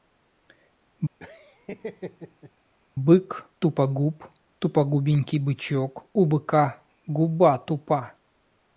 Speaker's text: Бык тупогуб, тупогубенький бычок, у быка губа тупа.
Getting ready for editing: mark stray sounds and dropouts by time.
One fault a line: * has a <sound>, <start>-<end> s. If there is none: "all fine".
* has a laugh, 1.2-2.5 s